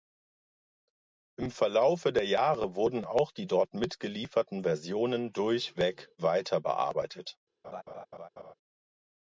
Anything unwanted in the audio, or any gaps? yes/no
yes